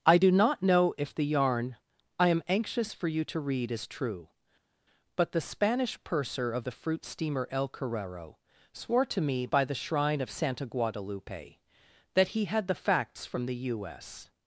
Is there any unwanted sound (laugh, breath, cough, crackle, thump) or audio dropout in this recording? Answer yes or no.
no